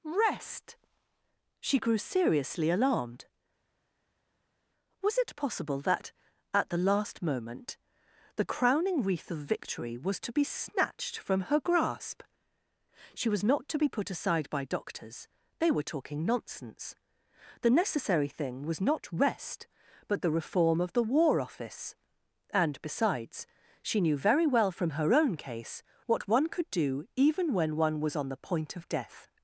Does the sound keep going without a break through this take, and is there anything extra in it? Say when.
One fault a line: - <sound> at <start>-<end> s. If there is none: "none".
none